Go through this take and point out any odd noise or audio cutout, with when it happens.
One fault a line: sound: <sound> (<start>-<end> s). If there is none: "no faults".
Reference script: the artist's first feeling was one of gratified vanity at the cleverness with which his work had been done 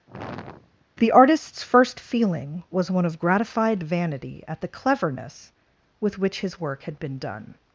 sound: sigh (0.1-0.8 s)